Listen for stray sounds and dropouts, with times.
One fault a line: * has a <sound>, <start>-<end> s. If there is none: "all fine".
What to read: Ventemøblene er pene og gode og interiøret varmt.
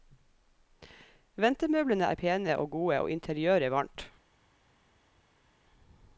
all fine